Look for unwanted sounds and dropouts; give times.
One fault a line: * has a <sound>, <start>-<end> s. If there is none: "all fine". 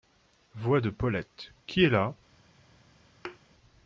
* has a thud, 3.2-3.4 s